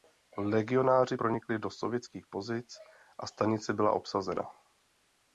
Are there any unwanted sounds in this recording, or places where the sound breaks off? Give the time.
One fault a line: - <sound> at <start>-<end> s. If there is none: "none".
none